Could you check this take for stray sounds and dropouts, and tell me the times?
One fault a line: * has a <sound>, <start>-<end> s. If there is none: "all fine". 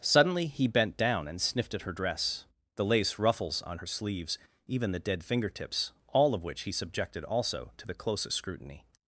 all fine